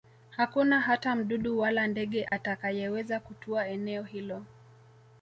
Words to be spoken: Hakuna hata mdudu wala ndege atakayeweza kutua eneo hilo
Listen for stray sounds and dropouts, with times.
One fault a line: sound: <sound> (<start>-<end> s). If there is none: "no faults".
sound: dropout (2.3-2.3 s)